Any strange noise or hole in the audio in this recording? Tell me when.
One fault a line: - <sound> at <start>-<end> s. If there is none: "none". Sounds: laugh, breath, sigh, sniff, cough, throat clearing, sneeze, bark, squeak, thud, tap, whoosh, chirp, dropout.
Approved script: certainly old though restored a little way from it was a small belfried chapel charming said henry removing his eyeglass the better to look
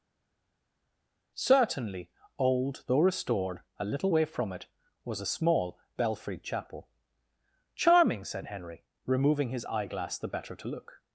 none